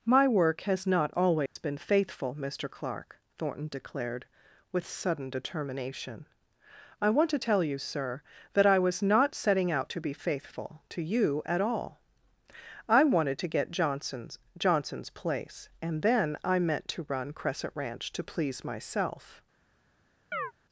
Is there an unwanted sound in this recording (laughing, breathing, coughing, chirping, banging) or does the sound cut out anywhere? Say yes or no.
yes